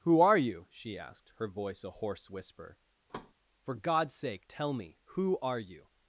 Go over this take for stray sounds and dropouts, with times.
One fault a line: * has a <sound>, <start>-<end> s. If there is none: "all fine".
* has a thud, 3.1-3.3 s